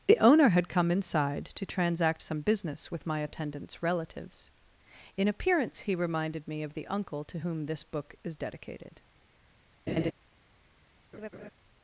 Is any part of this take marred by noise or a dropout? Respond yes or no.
yes